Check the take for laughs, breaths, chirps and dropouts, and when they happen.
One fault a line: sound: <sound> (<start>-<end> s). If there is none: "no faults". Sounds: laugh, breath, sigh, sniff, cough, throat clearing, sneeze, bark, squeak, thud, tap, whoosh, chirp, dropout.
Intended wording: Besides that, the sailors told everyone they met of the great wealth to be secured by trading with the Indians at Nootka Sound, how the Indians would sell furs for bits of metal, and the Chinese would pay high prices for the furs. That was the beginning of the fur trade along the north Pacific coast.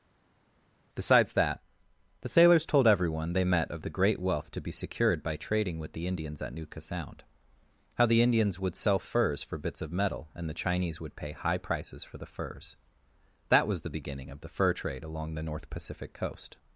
no faults